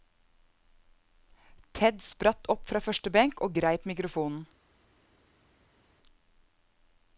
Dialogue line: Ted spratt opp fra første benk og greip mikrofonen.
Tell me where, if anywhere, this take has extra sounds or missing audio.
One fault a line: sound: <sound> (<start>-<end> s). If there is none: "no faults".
no faults